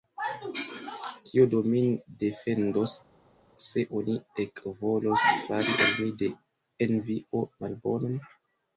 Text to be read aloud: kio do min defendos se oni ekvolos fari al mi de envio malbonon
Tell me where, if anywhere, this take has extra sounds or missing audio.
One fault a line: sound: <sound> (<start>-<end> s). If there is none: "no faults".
no faults